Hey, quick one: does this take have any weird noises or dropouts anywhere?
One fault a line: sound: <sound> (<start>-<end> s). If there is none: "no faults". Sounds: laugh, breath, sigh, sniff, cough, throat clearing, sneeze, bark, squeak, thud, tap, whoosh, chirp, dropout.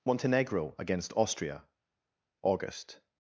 no faults